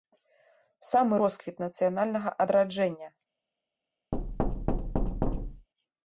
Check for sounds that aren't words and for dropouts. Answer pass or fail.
fail